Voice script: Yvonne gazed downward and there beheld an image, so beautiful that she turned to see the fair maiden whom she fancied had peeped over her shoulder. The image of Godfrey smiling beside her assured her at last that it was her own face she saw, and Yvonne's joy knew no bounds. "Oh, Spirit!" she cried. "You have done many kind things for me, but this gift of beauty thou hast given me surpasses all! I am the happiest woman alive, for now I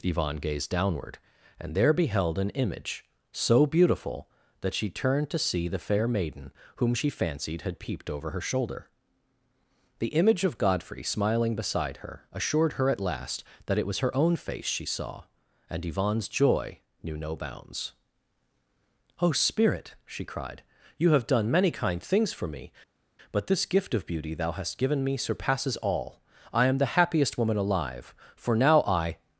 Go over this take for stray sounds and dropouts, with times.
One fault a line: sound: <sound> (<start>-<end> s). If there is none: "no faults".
no faults